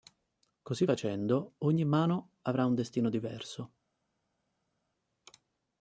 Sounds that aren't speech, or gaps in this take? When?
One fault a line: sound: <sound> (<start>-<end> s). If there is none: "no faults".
no faults